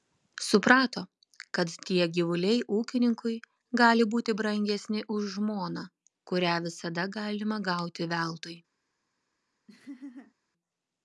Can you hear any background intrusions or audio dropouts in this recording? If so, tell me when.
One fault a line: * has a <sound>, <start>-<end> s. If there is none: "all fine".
* has a laugh, 9.7-10.3 s